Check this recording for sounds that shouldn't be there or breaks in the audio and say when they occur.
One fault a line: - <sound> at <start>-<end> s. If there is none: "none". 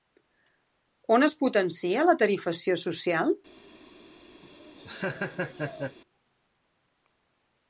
- laugh at 4.4-6.0 s